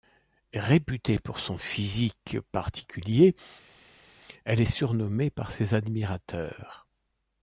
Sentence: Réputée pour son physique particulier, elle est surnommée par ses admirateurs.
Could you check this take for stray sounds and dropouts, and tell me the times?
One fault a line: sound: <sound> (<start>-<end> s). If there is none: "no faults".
no faults